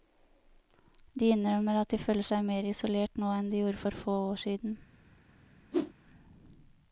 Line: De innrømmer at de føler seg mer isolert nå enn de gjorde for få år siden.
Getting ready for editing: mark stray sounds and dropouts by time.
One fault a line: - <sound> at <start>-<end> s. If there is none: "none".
- whoosh at 5.7-5.9 s